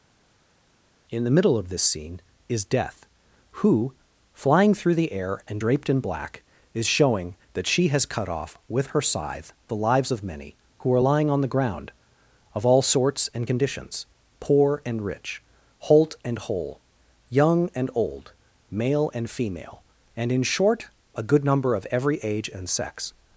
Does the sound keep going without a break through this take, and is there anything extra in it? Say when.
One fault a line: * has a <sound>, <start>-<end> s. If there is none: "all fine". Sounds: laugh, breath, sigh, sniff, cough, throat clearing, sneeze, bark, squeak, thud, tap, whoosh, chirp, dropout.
all fine